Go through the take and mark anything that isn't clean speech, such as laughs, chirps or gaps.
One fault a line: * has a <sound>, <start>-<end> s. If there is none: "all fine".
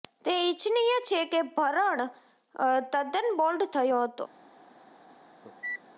* has a cough, 5.4-5.8 s